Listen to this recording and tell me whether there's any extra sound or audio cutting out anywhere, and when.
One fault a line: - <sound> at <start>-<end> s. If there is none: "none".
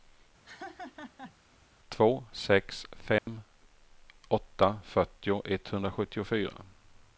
- laugh at 0.4-1.4 s
- dropout at 3.2-3.3 s